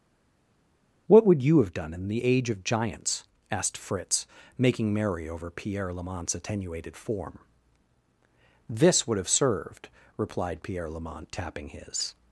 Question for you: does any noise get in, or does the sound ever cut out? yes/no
no